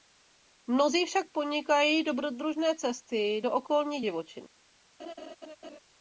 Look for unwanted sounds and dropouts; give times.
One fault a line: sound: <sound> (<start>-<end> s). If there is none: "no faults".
sound: laugh (5.0-5.8 s)